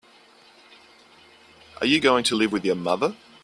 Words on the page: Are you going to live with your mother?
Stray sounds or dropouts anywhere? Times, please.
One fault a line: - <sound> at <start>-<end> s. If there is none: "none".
none